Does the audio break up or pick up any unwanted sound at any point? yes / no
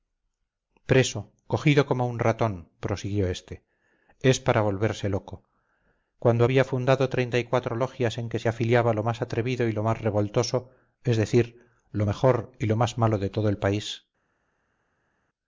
no